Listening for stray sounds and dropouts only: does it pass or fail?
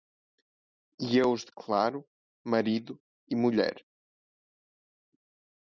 pass